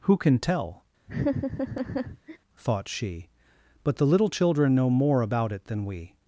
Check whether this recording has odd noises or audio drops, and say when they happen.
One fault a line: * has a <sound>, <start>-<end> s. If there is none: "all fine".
* has a laugh, 1.1-2.4 s